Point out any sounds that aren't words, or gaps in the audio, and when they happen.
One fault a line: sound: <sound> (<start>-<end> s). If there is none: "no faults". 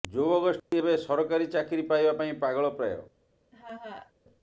sound: dropout (0.6-0.7 s)
sound: laugh (3.5-4.1 s)